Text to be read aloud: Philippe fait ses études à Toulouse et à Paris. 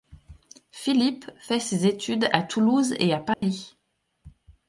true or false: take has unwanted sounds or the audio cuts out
true